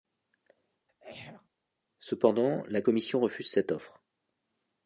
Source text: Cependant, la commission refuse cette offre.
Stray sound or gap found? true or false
true